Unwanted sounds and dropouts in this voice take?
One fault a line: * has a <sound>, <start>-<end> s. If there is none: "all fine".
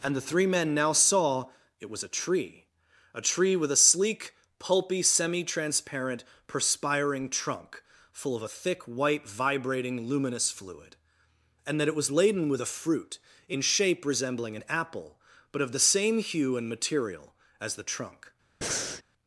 * has a breath, 18.6-19.0 s